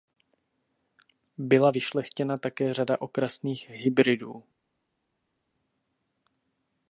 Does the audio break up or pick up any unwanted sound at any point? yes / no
no